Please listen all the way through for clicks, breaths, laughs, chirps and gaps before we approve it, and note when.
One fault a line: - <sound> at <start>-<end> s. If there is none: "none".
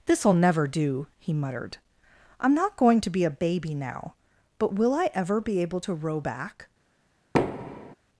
- thud at 7.3-8.0 s